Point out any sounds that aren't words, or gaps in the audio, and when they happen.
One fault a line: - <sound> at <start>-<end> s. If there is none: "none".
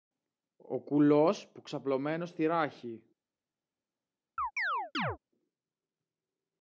- chirp at 4.4-5.2 s